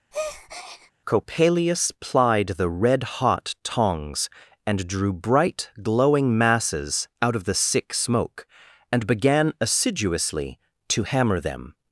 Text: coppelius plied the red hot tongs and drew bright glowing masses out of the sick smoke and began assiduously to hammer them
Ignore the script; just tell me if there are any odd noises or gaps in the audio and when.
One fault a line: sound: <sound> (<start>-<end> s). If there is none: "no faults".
sound: breath (0.1-0.9 s)